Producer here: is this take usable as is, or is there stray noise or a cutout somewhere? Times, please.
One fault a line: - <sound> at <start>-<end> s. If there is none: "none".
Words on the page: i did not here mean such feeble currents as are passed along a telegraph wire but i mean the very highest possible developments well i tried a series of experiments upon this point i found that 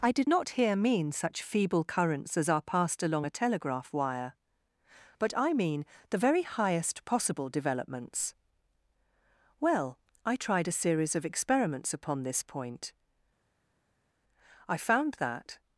none